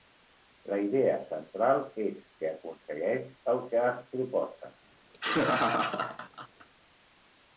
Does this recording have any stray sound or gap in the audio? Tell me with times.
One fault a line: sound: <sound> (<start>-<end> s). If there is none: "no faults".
sound: laugh (5.1-6.7 s)